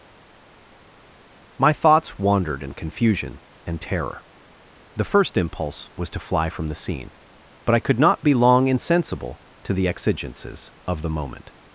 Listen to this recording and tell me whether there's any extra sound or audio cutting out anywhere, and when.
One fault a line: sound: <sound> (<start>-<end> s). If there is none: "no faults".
no faults